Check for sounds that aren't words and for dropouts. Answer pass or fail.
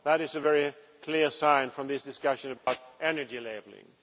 fail